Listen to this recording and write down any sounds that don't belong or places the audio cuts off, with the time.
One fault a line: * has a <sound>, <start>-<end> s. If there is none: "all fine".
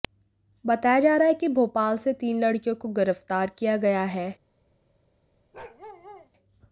* has a bark, 5.5-6.3 s